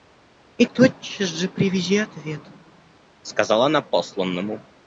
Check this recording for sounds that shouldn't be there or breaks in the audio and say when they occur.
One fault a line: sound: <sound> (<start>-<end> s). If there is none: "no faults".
no faults